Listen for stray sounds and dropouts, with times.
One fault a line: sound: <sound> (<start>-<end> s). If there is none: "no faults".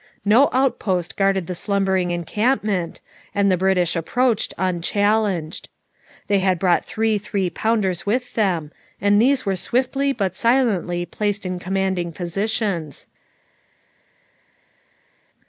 no faults